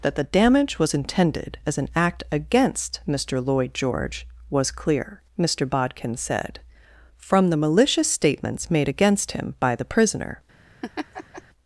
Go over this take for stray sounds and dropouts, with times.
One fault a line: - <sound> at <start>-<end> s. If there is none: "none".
- laugh at 10.8-11.4 s